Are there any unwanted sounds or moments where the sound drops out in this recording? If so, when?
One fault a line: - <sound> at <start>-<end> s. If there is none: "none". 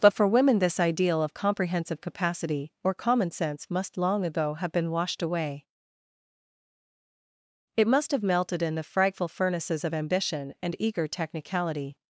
none